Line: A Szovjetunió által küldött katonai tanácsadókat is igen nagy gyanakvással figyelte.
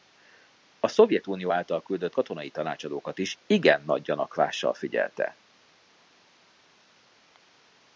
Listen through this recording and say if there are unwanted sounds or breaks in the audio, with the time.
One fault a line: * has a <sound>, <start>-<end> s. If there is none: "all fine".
all fine